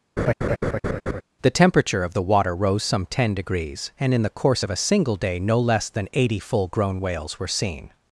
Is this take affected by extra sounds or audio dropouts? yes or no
yes